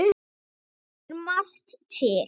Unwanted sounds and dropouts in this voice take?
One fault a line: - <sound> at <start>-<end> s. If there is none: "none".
none